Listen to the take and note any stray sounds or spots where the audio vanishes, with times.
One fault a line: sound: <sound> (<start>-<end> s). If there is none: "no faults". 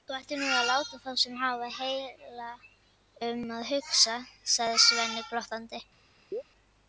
sound: chirp (6.3-6.4 s)